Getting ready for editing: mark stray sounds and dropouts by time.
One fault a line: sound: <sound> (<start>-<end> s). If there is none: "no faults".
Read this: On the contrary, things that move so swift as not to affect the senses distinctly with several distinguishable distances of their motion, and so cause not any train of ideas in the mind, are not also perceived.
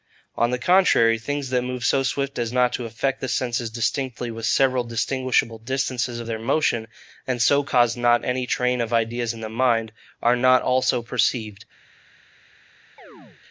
sound: chirp (13.0-13.4 s)